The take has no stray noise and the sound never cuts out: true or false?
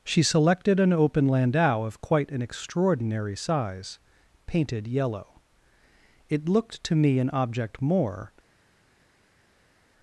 true